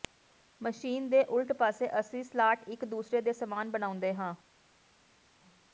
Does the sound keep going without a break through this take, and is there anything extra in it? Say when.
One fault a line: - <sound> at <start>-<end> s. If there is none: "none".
none